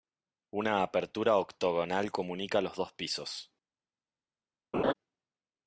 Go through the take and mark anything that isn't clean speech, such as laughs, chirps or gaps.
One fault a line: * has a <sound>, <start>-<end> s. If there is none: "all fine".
* has a laugh, 4.7-4.9 s